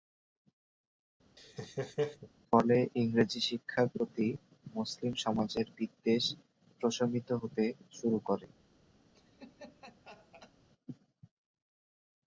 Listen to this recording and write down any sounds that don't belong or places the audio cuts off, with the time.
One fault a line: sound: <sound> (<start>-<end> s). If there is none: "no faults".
sound: laugh (1.4-2.3 s)
sound: laugh (9.1-10.5 s)